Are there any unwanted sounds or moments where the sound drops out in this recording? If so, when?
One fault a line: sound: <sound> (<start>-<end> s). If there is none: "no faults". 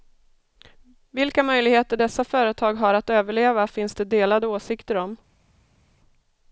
no faults